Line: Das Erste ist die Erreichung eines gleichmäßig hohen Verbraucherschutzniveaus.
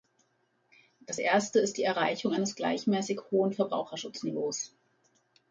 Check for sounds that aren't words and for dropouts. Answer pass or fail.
pass